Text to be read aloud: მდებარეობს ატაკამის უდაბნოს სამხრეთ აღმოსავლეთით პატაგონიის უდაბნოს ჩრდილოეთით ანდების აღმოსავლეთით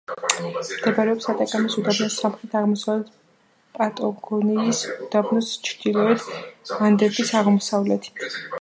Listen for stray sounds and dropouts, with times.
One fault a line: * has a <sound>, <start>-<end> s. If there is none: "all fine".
all fine